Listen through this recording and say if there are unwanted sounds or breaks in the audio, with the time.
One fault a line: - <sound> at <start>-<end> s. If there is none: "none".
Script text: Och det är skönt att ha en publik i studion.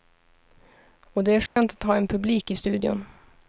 - dropout at 1.5-1.6 s